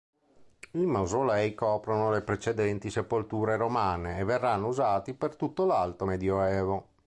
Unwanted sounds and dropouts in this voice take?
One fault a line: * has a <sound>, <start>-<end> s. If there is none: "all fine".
all fine